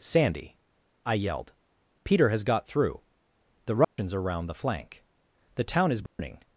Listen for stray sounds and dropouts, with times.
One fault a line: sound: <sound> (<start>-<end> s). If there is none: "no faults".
sound: dropout (3.8-4.0 s)
sound: dropout (6.1-6.2 s)